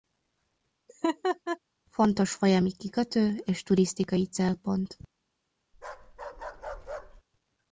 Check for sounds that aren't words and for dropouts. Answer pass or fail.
fail